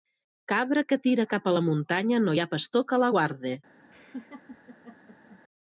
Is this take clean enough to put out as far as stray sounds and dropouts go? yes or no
no